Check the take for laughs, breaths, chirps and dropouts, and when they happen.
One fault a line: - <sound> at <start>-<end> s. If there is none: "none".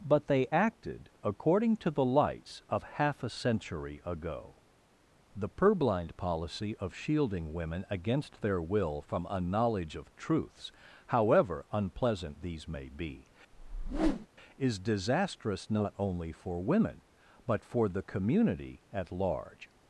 - whoosh at 13.5-14.3 s